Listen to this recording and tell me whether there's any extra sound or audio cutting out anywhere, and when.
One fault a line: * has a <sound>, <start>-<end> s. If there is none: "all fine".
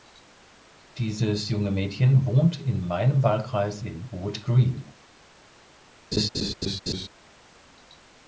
* has a laugh, 6.1-7.1 s